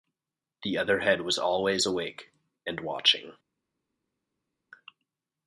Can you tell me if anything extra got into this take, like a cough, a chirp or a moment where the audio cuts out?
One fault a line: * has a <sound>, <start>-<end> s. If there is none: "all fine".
all fine